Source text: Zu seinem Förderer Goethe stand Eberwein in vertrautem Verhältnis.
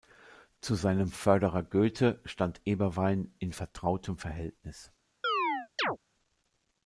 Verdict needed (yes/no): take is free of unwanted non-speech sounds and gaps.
no